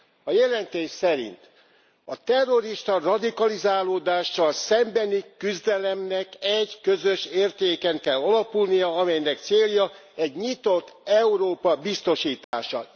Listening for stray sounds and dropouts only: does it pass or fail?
fail